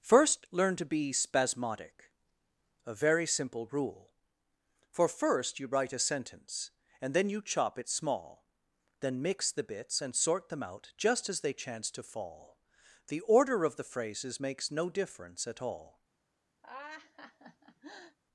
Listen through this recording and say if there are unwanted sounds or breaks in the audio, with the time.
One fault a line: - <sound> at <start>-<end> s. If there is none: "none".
- laugh at 16.6-18.2 s